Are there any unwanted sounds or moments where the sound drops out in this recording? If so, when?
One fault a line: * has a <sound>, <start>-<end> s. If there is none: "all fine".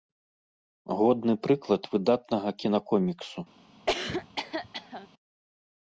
* has a cough, 3.9-5.1 s